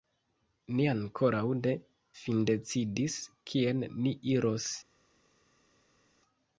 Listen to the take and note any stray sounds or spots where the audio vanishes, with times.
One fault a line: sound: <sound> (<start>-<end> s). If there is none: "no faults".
no faults